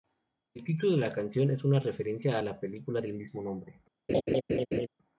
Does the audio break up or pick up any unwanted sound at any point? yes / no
yes